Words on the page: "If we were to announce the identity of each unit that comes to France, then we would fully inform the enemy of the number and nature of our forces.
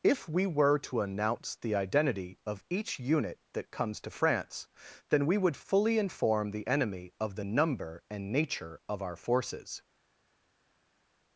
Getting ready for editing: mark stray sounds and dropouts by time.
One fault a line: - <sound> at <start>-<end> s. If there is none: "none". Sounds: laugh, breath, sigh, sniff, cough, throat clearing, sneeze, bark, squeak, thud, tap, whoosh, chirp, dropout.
none